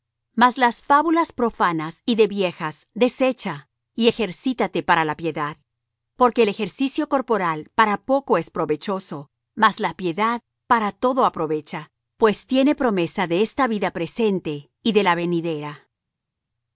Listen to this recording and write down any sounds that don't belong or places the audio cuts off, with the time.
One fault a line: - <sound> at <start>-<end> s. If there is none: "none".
none